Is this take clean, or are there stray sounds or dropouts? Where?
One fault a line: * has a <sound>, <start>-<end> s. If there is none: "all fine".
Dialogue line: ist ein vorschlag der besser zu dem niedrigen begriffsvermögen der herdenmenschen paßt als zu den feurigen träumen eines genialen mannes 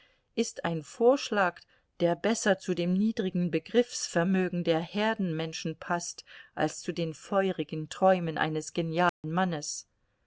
* has a dropout, 9.1-9.2 s